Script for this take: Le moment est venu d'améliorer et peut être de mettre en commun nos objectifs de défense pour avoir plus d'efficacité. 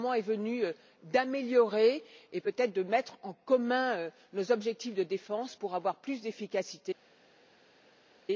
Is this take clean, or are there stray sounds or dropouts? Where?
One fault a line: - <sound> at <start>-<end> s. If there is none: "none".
none